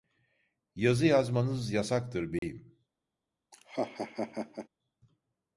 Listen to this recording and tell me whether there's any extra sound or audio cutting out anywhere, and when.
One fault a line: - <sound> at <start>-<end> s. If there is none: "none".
- dropout at 2.4-2.4 s
- laugh at 3.5-4.7 s